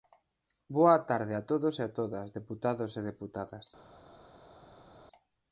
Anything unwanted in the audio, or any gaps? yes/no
no